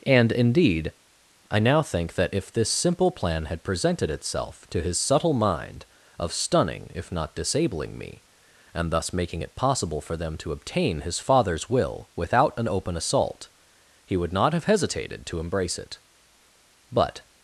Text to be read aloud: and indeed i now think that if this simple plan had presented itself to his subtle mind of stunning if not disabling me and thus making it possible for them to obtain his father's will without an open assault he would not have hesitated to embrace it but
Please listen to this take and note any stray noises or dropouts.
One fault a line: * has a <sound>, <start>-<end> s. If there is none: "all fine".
all fine